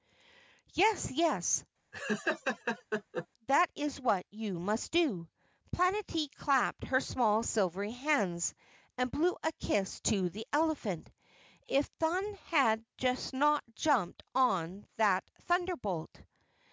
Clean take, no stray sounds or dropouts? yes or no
no